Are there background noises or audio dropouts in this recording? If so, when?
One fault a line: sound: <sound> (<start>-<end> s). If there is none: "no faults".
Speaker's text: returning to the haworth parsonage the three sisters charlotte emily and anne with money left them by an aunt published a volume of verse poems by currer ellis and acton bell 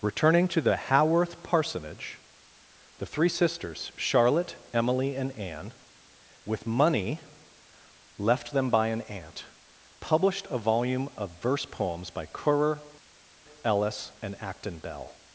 no faults